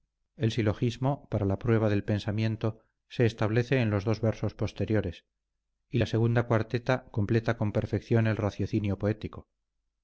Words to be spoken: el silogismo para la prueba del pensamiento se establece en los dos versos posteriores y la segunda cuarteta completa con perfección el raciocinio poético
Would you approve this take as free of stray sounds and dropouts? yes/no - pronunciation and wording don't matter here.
yes